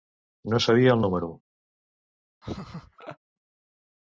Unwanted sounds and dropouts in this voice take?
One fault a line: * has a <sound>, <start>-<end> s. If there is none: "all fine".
* has a laugh, 2.4-3.2 s